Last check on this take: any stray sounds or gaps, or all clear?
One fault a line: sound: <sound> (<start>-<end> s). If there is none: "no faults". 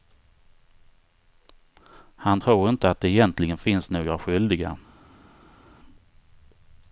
no faults